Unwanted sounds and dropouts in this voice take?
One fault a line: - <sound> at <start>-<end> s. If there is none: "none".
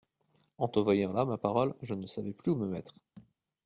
- thud at 3.2-3.3 s